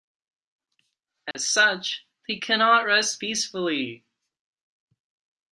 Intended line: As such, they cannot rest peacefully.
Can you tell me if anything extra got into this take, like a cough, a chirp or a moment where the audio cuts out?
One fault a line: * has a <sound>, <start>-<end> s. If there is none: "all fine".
* has a dropout, 1.3-1.3 s